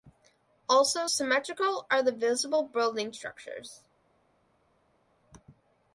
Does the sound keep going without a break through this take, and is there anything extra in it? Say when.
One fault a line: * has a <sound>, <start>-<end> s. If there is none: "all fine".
all fine